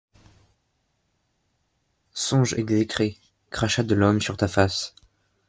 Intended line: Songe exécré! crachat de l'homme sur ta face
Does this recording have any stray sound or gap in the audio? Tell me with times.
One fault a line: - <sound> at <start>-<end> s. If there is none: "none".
none